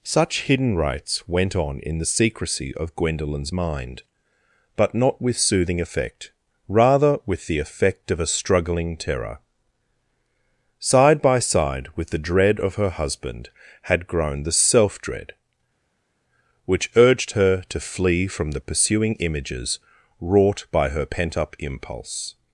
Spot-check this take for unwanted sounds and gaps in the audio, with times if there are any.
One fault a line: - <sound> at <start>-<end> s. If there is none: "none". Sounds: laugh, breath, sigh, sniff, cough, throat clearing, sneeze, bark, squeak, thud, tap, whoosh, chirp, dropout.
none